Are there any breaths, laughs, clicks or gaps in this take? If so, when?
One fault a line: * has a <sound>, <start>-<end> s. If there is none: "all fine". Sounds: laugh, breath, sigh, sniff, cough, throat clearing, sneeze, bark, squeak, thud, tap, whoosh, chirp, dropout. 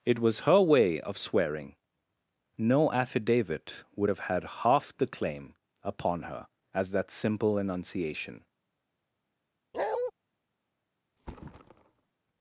* has a bark, 9.7-10.1 s
* has a thud, 11.2-12.1 s